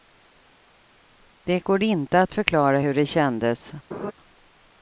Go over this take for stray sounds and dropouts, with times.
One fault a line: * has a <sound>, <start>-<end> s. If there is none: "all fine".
* has a laugh, 3.9-4.1 s